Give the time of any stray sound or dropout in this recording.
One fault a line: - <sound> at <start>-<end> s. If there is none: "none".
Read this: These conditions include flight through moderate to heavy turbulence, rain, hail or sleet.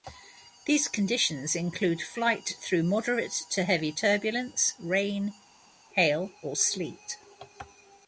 none